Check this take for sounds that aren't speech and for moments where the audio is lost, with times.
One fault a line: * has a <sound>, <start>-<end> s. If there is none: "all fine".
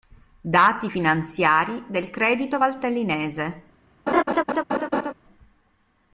* has a laugh, 4.1-5.1 s